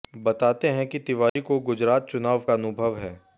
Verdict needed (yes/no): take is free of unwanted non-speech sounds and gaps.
no